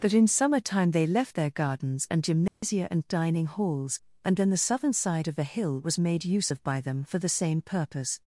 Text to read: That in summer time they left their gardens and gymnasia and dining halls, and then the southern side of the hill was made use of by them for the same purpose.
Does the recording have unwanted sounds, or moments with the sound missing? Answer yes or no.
yes